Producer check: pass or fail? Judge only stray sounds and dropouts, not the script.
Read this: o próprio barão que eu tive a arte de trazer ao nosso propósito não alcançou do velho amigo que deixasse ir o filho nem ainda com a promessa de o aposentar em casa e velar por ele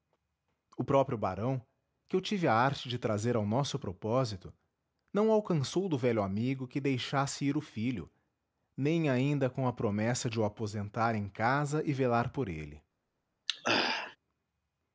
fail